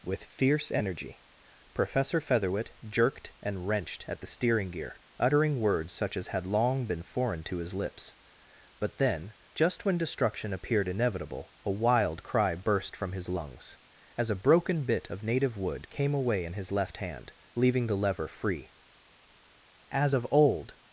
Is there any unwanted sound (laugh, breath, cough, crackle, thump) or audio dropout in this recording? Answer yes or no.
no